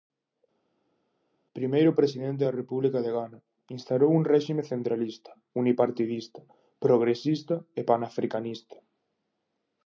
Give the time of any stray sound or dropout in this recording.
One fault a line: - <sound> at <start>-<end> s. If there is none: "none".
none